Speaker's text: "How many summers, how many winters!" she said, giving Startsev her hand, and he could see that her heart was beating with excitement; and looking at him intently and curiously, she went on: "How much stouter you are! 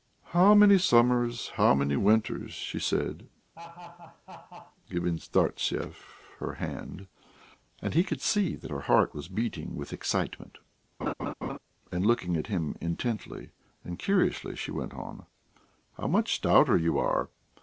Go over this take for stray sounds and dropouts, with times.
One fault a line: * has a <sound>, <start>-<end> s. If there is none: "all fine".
* has a laugh, 3.5-4.8 s
* has a laugh, 11.0-11.6 s